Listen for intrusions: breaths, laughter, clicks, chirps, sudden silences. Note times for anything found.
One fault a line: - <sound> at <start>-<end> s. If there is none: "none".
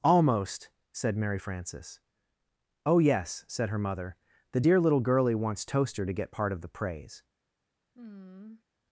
- sigh at 7.9-8.6 s